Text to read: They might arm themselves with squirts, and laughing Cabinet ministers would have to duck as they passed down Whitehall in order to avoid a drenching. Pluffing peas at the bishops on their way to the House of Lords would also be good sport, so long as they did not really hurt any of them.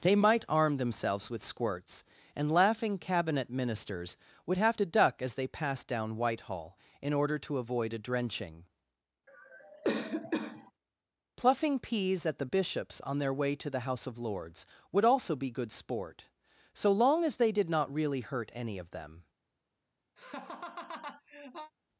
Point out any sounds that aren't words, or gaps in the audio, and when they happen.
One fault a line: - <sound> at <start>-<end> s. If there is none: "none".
- cough at 9.3-10.7 s
- laugh at 20.2-21.7 s